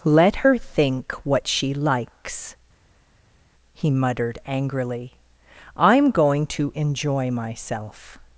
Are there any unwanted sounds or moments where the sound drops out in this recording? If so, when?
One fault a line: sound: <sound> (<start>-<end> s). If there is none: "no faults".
no faults